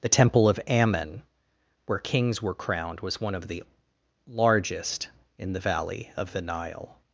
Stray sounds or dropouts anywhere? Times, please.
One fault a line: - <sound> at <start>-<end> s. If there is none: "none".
none